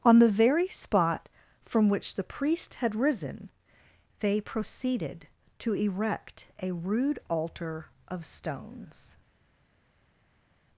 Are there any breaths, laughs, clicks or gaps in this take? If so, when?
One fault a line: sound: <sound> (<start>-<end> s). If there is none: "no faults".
no faults